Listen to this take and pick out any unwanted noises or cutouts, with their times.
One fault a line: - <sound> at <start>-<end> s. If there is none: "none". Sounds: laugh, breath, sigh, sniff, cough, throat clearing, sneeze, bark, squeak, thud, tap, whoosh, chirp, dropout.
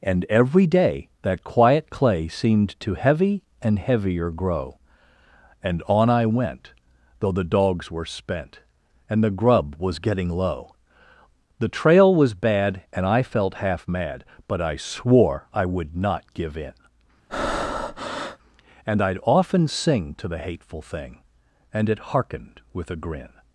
- breath at 17.3-18.4 s